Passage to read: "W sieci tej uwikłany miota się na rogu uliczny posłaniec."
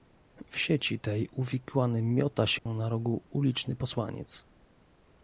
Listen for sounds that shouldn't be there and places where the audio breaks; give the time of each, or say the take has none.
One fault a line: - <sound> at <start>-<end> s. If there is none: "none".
- dropout at 2.6-2.7 s